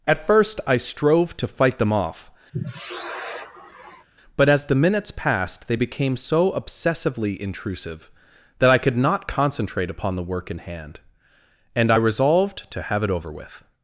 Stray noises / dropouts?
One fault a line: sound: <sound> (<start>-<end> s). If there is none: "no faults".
sound: sigh (2.5-4.1 s)